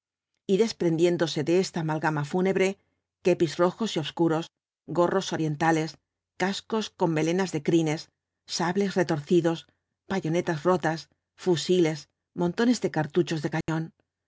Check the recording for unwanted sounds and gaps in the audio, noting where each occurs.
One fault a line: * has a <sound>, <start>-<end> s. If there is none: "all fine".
* has a dropout, 13.6-13.7 s